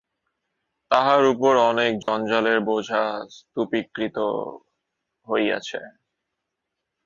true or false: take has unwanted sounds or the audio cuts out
true